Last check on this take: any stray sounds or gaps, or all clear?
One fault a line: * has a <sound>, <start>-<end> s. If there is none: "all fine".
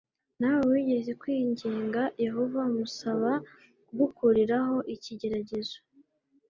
all fine